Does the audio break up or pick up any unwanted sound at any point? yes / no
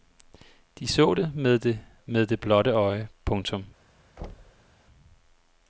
yes